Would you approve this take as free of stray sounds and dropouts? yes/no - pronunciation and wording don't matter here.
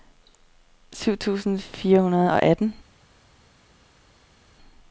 yes